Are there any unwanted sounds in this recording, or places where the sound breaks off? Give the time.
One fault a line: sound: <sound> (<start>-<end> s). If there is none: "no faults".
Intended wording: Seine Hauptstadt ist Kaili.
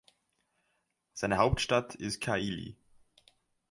no faults